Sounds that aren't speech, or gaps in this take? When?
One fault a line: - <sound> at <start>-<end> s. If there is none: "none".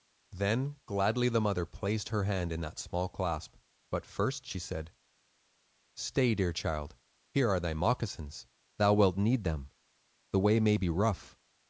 none